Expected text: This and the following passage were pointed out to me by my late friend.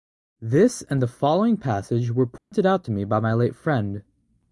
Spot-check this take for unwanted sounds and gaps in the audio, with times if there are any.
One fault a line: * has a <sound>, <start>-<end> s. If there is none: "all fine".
* has a dropout, 2.4-2.5 s